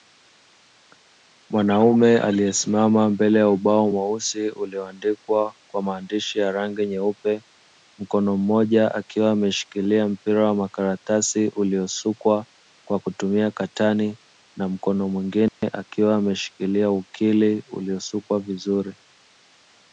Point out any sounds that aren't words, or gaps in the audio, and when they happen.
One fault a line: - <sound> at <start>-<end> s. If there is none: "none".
- dropout at 15.5-15.6 s